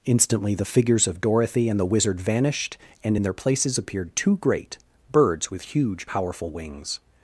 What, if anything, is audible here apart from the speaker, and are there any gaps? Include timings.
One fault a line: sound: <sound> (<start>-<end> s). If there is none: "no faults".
no faults